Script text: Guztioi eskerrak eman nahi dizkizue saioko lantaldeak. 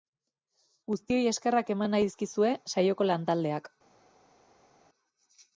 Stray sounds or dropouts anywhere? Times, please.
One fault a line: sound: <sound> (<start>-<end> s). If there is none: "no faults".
no faults